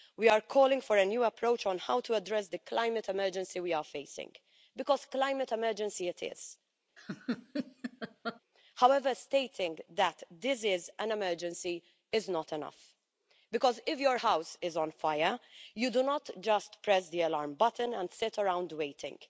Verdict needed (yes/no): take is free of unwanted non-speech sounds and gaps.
no